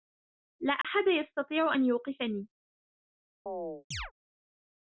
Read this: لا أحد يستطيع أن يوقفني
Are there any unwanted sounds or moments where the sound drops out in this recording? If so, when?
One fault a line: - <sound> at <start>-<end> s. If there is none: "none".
- dropout at 0.8-0.8 s
- chirp at 3.5-4.1 s